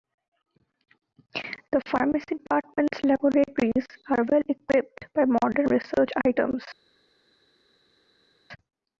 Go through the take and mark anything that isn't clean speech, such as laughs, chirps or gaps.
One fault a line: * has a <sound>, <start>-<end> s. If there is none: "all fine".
all fine